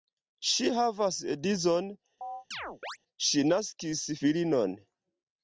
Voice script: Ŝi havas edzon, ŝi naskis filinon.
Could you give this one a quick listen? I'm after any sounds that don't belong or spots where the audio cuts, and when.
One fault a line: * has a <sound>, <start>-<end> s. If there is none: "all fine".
* has a chirp, 2.2-3.0 s